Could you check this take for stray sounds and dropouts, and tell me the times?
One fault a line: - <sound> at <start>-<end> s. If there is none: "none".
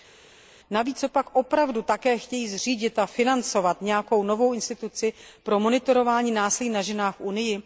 none